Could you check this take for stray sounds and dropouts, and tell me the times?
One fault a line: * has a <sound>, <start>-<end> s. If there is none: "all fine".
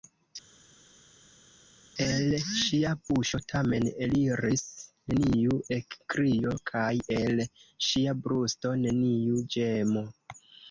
all fine